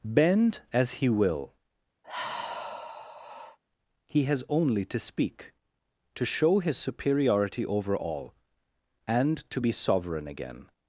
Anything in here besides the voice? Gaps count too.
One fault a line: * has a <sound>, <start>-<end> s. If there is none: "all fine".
* has a sigh, 2.0-3.6 s